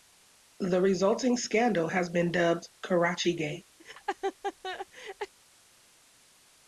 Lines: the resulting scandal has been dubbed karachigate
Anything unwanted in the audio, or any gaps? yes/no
yes